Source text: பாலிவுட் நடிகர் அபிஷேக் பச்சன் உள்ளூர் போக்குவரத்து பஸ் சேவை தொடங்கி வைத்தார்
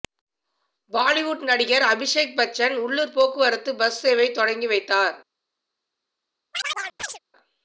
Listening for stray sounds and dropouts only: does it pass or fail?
fail